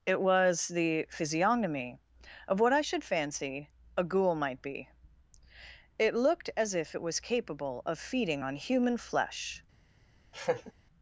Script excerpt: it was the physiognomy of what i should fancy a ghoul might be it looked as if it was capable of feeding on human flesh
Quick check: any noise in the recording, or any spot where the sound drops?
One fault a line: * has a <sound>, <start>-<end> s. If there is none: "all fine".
* has a laugh, 10.3-10.7 s